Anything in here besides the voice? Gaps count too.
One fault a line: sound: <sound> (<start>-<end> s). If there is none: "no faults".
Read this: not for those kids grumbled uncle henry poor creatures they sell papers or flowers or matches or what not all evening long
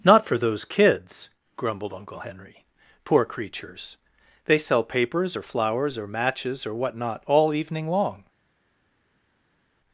no faults